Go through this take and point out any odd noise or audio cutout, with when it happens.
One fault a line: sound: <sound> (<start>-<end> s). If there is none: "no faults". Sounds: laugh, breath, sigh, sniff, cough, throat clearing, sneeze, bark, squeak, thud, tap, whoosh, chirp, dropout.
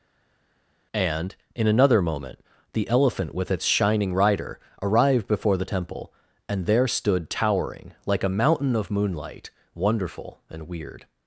no faults